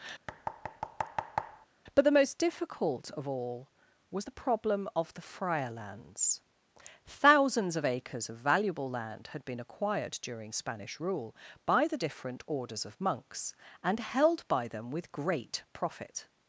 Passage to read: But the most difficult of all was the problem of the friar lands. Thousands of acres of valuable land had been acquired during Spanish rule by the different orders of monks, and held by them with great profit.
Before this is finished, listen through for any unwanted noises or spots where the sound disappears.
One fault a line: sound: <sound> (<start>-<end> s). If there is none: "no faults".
sound: thud (0.3-1.7 s)